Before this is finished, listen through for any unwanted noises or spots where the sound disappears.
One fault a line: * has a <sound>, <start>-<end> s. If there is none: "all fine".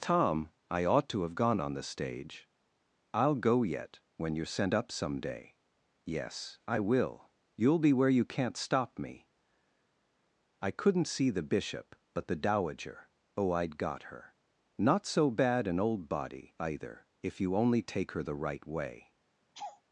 * has a laugh, 19.5-19.8 s